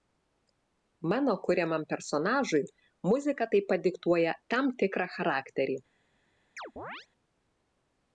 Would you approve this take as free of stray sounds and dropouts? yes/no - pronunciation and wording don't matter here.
no